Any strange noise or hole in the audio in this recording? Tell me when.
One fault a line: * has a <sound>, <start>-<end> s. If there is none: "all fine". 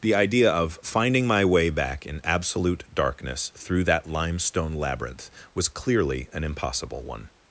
all fine